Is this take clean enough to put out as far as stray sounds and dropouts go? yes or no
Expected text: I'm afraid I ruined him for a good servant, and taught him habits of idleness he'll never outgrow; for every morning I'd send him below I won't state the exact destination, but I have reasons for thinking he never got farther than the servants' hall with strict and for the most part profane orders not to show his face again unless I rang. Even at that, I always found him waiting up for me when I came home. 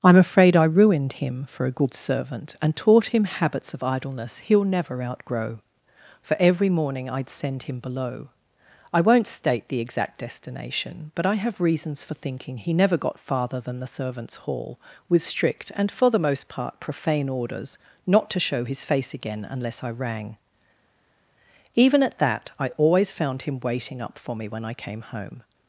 yes